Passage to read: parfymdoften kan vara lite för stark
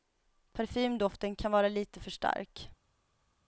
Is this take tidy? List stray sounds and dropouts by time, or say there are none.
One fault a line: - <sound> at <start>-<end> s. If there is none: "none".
none